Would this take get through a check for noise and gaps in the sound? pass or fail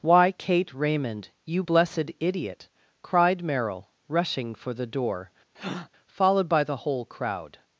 fail